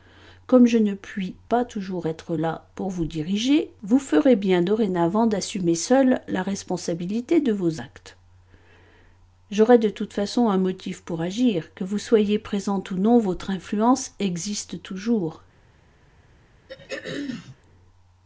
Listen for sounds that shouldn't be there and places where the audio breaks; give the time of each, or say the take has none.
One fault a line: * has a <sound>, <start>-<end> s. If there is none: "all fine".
* has a throat clearing, 16.7-17.6 s